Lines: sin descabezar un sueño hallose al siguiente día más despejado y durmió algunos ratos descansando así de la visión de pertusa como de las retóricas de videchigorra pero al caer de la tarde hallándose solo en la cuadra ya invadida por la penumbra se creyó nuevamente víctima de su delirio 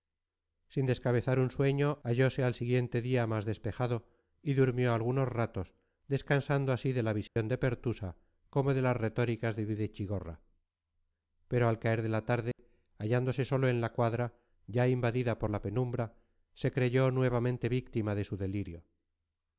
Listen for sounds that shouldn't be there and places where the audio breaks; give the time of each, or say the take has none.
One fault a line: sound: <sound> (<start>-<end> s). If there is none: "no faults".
sound: dropout (7.3-7.4 s)
sound: dropout (12.5-12.6 s)